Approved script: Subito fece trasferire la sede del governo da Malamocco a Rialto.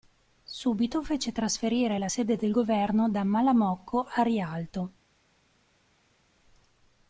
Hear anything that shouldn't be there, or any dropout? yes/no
no